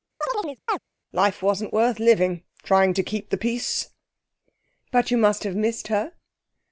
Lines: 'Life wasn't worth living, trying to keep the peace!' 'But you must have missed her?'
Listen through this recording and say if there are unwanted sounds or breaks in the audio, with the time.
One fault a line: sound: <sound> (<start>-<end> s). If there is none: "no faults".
sound: chirp (0.2-0.8 s)